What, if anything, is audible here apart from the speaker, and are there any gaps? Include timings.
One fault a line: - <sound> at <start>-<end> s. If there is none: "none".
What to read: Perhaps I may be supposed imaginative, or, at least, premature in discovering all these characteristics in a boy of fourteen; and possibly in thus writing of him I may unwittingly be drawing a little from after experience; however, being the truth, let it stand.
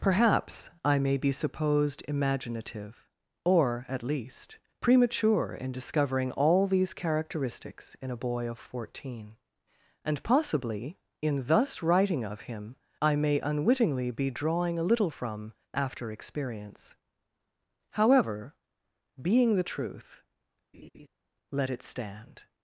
- laugh at 20.7-21.1 s